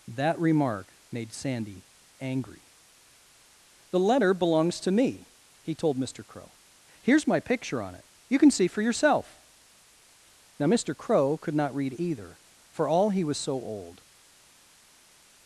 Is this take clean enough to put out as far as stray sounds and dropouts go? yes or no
yes